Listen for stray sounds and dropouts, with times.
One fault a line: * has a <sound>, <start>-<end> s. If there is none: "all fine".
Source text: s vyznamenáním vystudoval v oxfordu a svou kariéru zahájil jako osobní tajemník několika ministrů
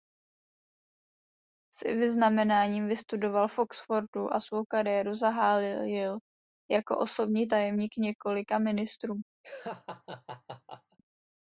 * has a laugh, 9.4-11.0 s